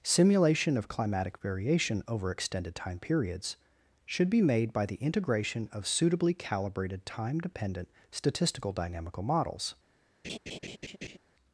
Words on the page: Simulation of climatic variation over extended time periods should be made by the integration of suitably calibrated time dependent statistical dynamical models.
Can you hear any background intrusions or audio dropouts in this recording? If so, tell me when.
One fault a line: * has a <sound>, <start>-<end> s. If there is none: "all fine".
* has a laugh, 10.2-11.2 s